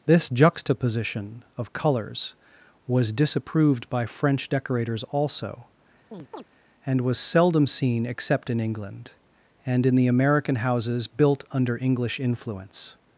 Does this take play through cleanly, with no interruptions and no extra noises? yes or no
no